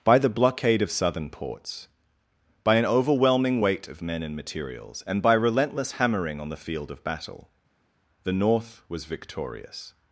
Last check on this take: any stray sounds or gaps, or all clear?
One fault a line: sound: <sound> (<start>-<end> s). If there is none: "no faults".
no faults